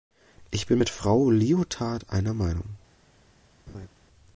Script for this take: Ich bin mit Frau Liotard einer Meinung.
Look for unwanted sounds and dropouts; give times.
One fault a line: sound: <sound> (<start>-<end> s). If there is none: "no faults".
sound: laugh (3.7-3.9 s)